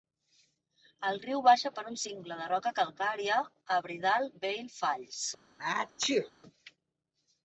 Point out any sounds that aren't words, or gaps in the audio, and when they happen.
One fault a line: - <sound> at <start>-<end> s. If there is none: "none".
- sneeze at 5.6-6.3 s